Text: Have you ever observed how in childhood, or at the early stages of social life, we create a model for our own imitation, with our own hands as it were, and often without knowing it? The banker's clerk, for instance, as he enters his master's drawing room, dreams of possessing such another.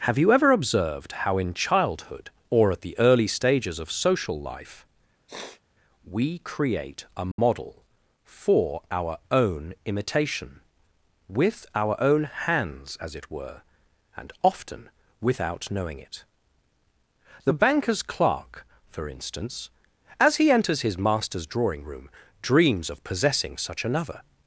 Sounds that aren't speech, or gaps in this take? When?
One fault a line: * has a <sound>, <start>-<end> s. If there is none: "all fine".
* has a sniff, 5.3-5.6 s
* has a dropout, 7.3-7.4 s